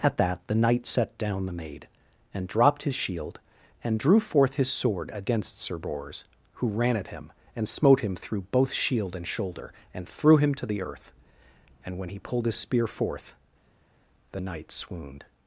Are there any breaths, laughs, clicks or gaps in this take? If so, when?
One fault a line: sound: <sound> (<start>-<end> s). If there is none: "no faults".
no faults